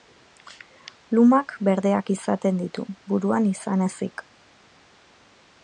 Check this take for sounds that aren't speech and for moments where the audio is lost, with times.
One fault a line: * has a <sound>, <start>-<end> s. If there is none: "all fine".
all fine